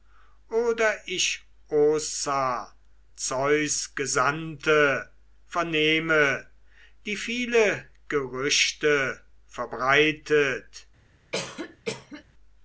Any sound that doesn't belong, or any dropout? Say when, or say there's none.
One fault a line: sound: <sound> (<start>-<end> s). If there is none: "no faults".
sound: cough (11.3-12.2 s)